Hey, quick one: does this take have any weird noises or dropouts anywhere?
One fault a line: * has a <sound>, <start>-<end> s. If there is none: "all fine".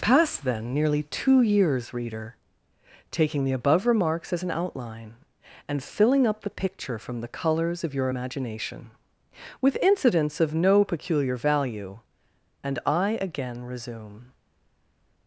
all fine